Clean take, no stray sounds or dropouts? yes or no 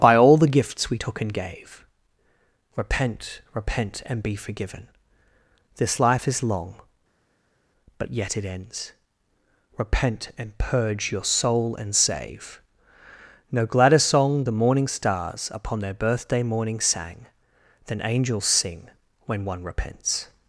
yes